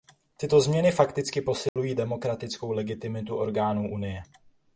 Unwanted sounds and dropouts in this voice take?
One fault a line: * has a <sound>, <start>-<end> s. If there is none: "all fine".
* has a dropout, 1.7-1.8 s